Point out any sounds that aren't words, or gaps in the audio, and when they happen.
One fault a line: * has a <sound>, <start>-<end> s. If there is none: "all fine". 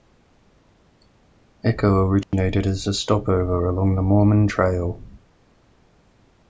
* has a dropout, 2.2-2.3 s